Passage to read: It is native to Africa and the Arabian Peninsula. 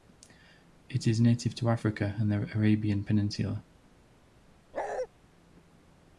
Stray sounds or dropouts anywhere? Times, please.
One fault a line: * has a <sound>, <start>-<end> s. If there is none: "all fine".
* has a bark, 4.7-5.1 s